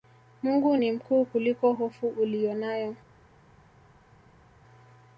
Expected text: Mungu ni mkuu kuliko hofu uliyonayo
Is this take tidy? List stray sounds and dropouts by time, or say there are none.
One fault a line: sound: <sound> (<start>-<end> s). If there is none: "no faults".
no faults